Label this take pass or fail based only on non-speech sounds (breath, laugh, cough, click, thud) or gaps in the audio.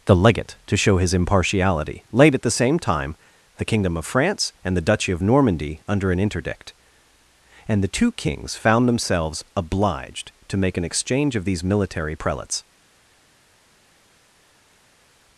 pass